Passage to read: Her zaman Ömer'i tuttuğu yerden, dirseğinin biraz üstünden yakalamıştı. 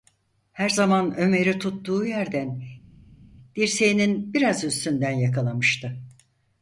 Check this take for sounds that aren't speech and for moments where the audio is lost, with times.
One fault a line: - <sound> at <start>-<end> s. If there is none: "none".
none